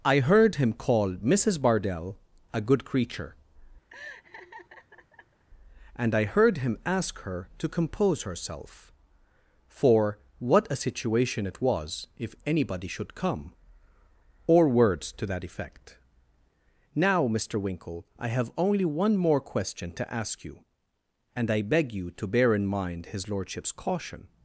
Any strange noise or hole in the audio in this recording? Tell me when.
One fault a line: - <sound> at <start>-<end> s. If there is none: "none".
- laugh at 3.9-5.4 s